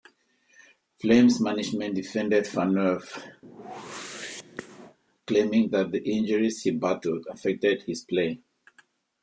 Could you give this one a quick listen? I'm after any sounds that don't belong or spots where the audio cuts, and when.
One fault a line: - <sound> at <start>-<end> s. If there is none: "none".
- whoosh at 3.4-5.0 s